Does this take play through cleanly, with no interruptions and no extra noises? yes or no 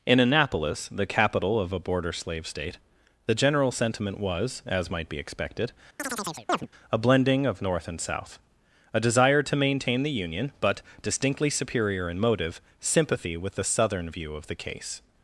no